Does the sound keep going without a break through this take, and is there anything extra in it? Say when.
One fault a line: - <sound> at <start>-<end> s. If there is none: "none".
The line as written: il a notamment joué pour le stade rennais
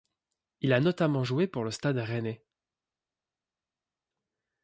none